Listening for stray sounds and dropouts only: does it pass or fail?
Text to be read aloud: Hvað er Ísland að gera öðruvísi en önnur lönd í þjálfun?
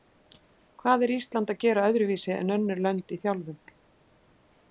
pass